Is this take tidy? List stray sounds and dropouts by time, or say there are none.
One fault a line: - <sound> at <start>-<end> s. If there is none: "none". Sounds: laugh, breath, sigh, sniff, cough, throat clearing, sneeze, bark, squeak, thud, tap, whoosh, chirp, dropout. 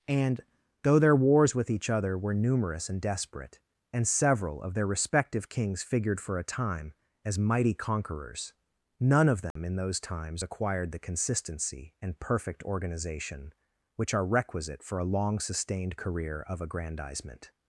- dropout at 9.5-9.6 s